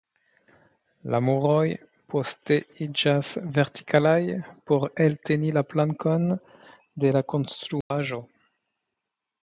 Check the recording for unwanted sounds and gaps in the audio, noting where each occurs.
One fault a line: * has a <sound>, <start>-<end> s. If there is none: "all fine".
* has a dropout, 7.8-7.9 s